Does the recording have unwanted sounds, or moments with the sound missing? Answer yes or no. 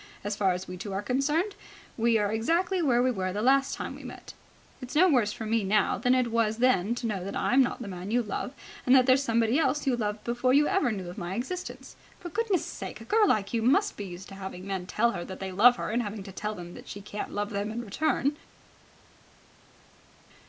no